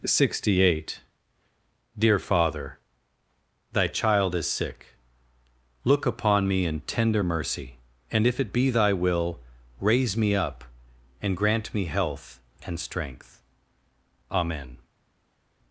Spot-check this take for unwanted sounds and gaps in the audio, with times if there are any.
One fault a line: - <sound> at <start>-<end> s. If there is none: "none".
none